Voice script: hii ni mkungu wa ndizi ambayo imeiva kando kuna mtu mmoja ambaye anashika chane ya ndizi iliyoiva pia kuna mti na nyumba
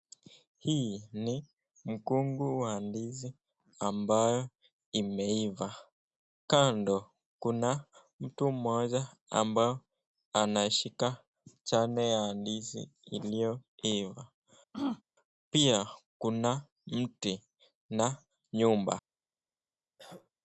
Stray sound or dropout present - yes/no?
yes